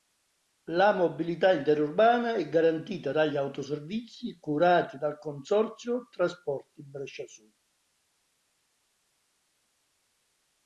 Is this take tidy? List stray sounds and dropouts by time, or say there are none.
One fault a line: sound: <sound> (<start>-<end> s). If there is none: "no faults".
no faults